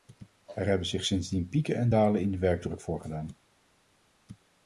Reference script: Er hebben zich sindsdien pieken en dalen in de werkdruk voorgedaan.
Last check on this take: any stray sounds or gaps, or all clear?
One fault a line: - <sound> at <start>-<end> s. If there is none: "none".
none